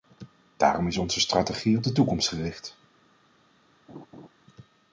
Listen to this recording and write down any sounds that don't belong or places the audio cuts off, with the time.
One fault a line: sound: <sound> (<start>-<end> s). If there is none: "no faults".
sound: laugh (3.9-4.3 s)